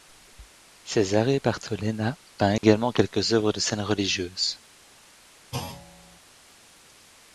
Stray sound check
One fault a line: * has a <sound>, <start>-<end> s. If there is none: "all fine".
* has a dropout, 2.6-2.6 s
* has a thud, 5.5-6.2 s